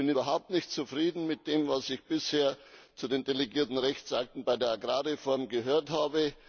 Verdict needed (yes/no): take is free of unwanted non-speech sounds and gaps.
yes